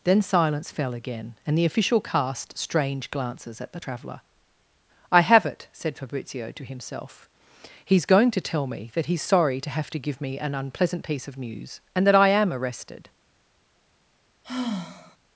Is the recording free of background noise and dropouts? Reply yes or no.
no